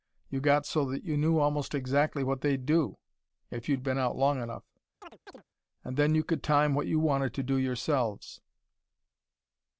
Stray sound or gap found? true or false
true